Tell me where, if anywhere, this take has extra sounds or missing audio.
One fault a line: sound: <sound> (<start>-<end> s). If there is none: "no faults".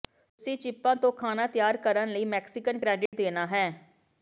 sound: dropout (3.1-3.1 s)